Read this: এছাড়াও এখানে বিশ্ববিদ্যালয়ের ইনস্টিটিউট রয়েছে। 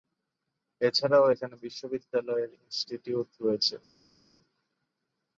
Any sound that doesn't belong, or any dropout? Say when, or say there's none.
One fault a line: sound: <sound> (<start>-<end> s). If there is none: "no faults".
no faults